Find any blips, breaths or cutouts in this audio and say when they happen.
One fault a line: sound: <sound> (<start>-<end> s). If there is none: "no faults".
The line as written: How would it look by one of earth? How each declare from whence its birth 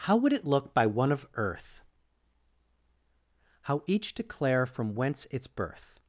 no faults